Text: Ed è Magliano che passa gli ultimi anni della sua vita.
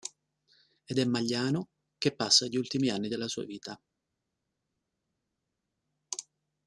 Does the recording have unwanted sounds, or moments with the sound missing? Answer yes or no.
no